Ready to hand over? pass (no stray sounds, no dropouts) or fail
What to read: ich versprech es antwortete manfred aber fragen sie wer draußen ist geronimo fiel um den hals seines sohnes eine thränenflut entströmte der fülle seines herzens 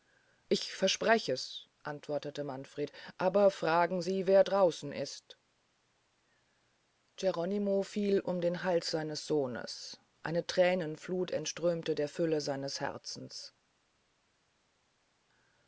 pass